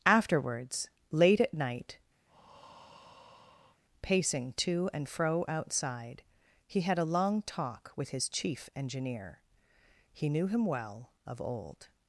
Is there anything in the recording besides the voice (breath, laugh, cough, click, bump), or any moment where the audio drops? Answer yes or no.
yes